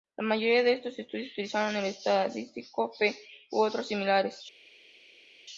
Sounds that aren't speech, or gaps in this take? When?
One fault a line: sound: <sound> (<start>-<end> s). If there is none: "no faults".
no faults